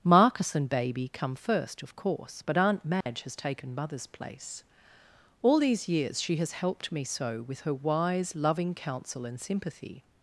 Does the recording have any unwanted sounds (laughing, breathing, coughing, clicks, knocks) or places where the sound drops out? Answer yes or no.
yes